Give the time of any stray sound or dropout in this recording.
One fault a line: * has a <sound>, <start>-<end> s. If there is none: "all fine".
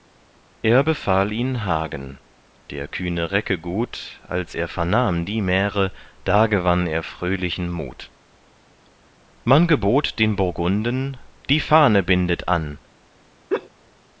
* has a laugh, 13.5-13.7 s